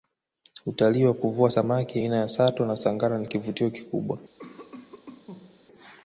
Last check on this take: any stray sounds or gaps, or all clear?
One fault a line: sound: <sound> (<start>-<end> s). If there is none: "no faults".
sound: cough (4.4-5.7 s)